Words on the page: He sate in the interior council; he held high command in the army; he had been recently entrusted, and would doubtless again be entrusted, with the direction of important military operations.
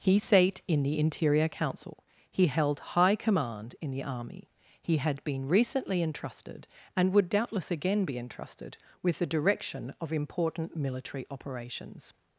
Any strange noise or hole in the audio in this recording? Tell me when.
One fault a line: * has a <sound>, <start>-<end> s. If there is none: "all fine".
all fine